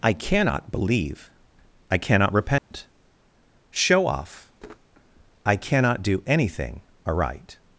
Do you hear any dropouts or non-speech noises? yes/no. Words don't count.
yes